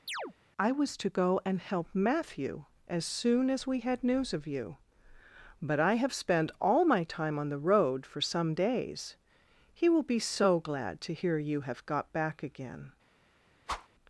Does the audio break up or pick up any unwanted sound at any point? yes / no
yes